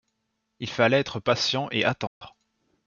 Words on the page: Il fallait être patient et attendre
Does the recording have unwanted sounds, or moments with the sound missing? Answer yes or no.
yes